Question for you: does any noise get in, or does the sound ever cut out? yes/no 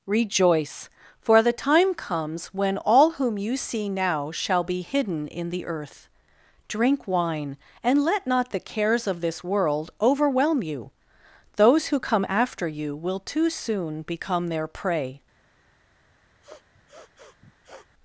yes